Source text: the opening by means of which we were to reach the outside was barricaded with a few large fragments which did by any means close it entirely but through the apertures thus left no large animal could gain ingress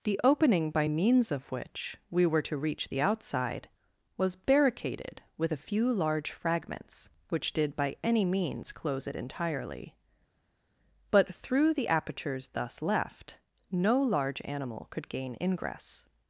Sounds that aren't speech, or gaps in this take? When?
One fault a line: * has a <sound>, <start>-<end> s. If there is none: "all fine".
all fine